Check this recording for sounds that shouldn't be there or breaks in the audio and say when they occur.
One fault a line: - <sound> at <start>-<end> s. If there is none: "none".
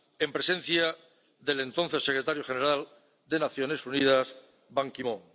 none